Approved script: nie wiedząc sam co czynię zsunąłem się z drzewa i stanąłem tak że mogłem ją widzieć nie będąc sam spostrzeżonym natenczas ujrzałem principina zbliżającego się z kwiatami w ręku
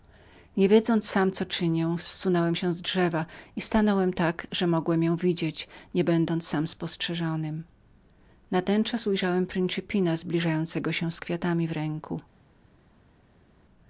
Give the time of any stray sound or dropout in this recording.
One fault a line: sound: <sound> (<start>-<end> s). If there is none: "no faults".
no faults